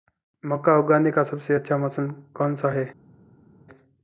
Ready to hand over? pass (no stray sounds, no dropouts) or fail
pass